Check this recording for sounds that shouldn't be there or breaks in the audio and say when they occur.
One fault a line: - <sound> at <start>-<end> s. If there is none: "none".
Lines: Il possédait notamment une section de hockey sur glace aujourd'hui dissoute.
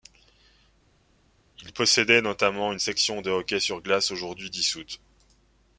none